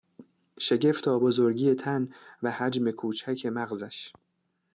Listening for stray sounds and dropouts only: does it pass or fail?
pass